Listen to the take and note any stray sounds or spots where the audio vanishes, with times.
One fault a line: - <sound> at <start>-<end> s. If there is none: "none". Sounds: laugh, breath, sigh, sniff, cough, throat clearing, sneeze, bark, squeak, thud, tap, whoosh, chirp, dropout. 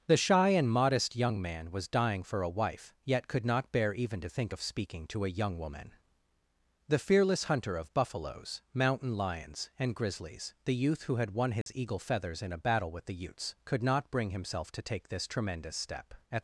- dropout at 11.6-11.7 s